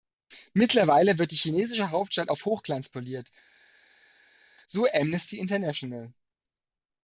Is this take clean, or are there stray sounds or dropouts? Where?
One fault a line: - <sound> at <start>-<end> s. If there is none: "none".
none